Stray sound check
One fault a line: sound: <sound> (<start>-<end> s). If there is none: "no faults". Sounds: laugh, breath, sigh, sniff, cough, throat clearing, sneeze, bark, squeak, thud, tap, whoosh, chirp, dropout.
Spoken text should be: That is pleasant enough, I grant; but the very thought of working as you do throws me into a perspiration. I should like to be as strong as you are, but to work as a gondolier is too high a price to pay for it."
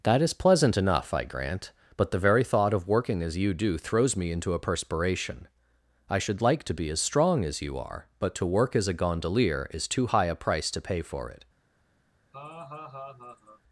sound: laugh (12.3-13.6 s)